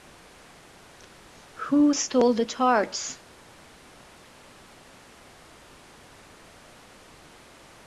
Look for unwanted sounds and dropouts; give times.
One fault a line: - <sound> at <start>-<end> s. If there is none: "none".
none